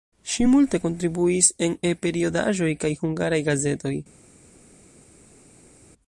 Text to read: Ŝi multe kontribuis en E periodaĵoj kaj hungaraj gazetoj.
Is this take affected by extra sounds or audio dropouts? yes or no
no